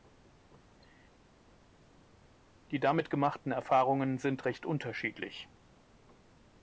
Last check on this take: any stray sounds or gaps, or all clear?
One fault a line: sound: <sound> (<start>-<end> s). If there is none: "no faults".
no faults